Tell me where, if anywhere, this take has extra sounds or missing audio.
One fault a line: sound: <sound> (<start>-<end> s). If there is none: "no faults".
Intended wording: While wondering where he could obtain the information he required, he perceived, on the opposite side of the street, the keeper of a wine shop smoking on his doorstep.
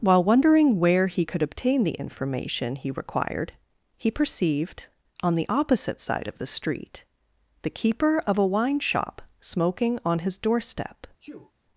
sound: sneeze (11.2-11.5 s)